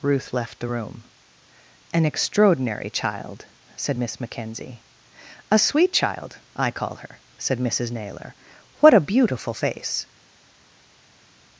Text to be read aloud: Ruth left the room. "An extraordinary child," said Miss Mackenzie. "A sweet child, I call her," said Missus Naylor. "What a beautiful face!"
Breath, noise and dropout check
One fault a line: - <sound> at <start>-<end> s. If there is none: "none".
none